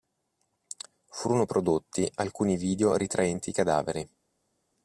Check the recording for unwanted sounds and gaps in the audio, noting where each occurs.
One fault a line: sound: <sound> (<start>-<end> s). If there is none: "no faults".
no faults